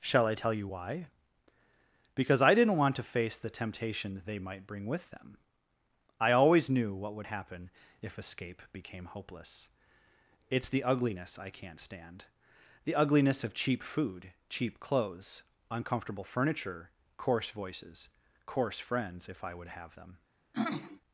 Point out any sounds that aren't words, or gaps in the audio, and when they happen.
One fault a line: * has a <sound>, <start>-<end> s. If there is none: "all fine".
* has a throat clearing, 20.5-21.0 s